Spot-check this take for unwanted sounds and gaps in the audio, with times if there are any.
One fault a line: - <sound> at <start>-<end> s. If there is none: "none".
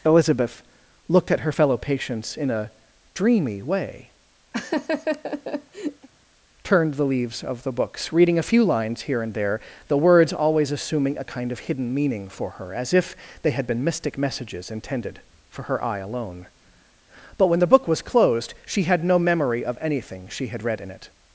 - laugh at 4.5-6.1 s